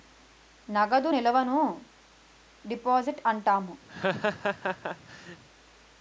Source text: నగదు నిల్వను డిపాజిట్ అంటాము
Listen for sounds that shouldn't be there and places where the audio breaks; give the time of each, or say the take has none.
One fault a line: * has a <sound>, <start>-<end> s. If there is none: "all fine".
* has a laugh, 3.9-5.4 s